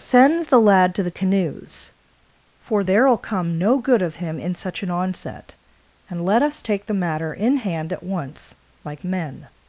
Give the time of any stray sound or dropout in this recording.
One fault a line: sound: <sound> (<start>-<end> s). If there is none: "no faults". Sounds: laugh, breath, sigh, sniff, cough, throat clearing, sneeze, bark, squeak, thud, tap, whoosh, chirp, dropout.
no faults